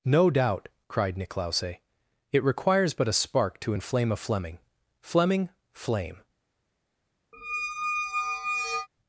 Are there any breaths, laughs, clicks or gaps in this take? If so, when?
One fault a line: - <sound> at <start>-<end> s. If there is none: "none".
- squeak at 7.3-8.9 s